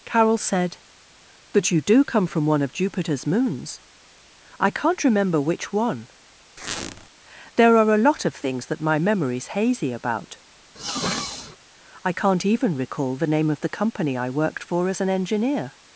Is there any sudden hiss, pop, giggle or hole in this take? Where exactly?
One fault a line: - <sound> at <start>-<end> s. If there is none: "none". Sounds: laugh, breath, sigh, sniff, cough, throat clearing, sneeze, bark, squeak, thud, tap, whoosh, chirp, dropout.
- squeak at 6.6-7.1 s
- sniff at 10.8-11.6 s